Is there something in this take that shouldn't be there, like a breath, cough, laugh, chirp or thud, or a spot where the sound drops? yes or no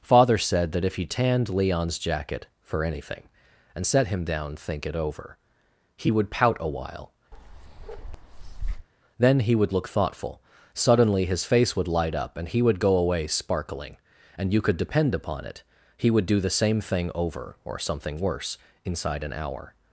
yes